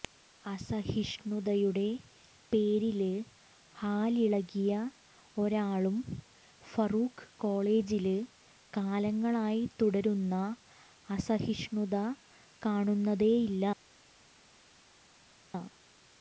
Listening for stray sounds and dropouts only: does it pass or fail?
pass